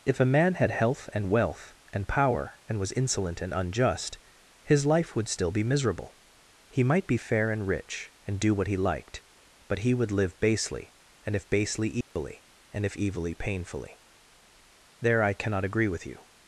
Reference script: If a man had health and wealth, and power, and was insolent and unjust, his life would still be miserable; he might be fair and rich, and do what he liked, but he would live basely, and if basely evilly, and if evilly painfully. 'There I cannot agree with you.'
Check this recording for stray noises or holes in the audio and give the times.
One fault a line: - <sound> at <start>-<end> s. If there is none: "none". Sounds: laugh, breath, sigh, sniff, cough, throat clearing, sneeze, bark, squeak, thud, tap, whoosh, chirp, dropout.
- dropout at 12.0-12.2 s